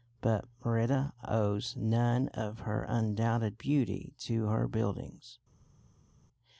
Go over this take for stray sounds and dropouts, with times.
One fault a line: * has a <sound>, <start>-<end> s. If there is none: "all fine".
all fine